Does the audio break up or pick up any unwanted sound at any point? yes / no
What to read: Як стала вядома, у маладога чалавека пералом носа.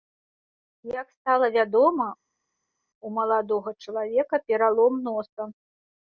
no